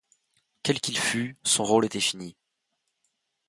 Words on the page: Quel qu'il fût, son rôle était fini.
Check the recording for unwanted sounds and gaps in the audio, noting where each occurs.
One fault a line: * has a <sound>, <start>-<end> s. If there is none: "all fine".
all fine